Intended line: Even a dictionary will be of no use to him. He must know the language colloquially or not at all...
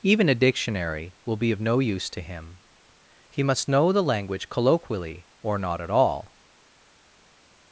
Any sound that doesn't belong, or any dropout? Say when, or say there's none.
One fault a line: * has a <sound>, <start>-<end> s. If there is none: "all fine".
all fine